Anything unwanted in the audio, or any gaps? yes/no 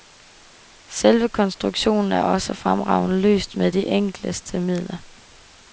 no